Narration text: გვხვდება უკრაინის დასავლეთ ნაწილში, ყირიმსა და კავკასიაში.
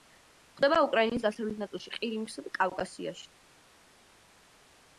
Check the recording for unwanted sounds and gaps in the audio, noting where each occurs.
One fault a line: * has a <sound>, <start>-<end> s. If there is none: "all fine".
all fine